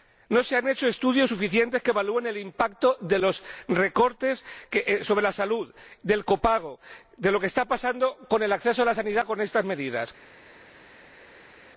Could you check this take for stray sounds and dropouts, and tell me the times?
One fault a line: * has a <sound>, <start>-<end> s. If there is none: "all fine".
all fine